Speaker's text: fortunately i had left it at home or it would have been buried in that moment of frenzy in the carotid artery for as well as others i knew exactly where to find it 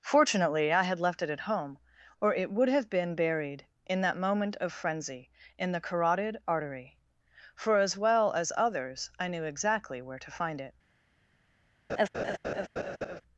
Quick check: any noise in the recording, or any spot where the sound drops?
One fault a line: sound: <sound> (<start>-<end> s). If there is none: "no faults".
sound: laugh (11.9-13.2 s)